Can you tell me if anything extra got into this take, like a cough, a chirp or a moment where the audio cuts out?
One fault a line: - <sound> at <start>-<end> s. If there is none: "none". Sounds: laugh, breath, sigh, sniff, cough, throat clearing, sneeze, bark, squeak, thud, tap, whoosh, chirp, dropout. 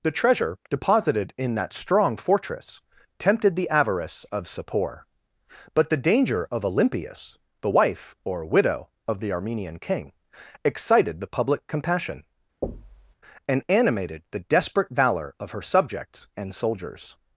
- thud at 12.6-13.2 s